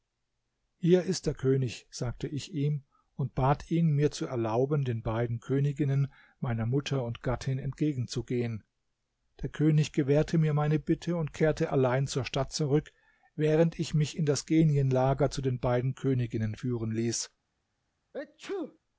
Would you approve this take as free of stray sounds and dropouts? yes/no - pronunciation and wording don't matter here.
no